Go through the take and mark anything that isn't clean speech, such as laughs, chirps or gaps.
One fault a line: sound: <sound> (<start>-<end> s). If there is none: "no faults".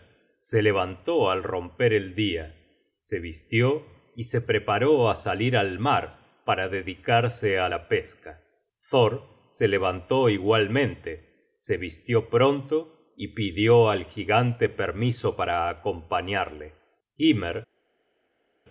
no faults